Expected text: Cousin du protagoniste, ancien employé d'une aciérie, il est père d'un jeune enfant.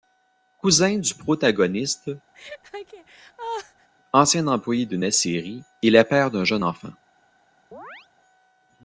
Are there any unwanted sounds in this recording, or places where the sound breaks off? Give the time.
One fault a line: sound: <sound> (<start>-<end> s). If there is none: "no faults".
sound: laugh (2.3-3.9 s)
sound: chirp (7.7-8.1 s)